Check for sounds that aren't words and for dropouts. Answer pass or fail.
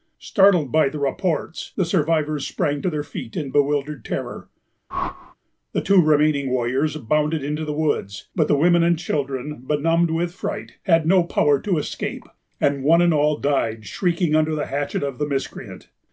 fail